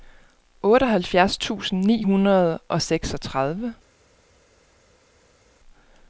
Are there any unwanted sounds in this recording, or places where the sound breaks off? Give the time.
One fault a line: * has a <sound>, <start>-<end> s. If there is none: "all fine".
all fine